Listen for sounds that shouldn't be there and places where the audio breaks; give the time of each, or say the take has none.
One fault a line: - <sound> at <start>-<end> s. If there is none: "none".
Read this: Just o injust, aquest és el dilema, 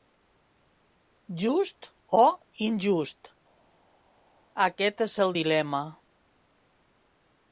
none